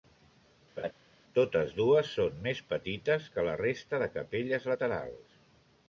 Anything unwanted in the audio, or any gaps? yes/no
yes